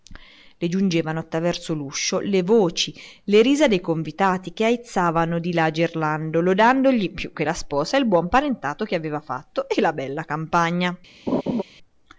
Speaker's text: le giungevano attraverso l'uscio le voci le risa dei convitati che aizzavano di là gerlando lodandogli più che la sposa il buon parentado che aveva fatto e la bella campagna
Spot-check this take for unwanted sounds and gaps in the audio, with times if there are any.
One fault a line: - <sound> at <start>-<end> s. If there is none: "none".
- laugh at 11.3-11.6 s